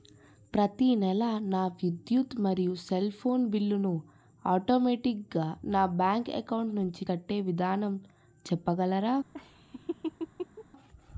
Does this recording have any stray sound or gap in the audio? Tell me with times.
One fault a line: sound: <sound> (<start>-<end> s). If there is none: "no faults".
sound: laugh (9.3-10.6 s)